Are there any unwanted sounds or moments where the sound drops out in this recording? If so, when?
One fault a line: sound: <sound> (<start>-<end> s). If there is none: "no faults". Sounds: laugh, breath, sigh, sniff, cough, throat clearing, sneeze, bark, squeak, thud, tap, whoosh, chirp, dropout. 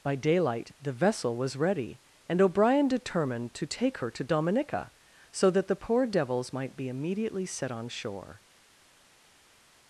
no faults